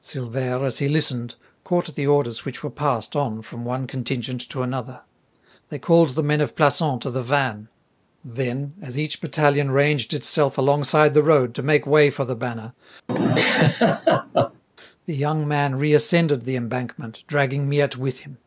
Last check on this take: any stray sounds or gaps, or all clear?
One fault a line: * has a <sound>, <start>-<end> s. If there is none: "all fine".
* has a laugh, 13.1-14.6 s